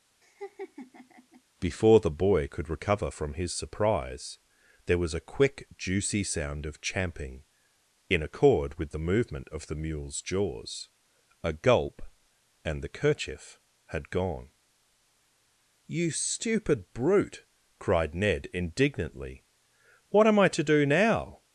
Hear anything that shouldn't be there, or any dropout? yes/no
yes